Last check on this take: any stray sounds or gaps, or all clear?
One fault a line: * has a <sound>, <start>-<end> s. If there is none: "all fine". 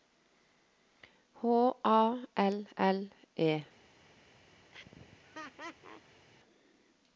* has a laugh, 4.7-6.3 s